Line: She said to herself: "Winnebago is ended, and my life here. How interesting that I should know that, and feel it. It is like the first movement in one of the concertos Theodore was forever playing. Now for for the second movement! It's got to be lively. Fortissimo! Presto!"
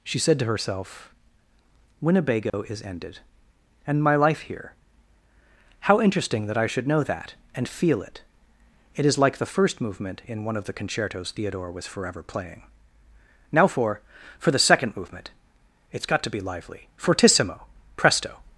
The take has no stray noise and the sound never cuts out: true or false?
false